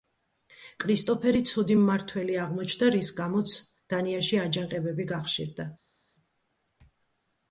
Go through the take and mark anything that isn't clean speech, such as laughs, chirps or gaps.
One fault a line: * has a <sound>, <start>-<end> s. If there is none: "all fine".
all fine